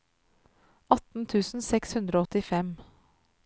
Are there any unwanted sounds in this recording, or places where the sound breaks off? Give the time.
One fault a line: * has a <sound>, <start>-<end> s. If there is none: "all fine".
all fine